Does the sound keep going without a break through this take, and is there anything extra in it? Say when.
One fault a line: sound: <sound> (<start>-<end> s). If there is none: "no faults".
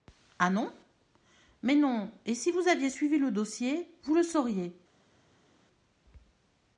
no faults